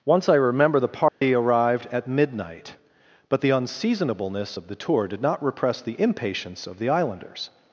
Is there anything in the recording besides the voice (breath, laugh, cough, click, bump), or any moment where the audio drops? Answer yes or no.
yes